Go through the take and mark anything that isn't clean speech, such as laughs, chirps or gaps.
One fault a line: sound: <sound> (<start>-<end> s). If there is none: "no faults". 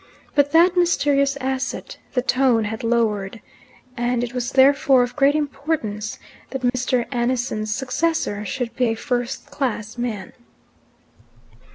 sound: dropout (6.7-6.7 s)